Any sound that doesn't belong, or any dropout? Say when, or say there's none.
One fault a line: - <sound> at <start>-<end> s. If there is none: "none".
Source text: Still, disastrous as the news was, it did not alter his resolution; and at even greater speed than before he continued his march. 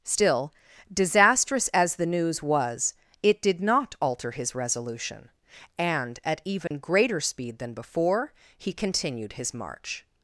- dropout at 6.7-6.7 s